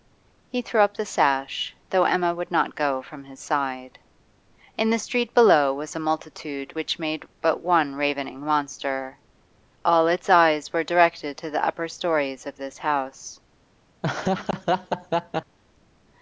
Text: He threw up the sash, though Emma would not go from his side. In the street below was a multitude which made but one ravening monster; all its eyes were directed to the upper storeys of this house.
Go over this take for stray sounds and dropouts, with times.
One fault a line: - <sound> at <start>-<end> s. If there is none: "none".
- laugh at 14.0-15.6 s